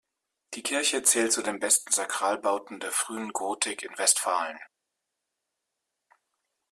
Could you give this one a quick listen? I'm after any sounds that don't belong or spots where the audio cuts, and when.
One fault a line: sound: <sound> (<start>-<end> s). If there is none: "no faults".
no faults